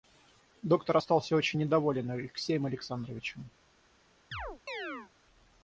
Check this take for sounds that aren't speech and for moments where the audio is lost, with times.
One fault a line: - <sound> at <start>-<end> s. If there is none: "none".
- chirp at 4.3-5.1 s